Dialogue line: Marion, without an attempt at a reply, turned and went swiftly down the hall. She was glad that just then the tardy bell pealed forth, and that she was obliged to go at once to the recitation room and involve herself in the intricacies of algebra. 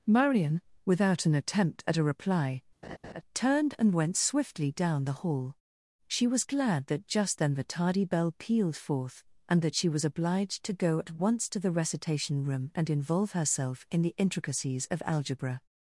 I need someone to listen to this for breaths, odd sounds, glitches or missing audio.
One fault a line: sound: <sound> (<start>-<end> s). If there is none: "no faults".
sound: laugh (2.8-3.2 s)